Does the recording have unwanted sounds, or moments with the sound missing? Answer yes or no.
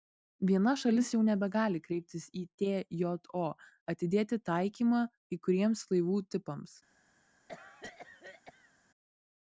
yes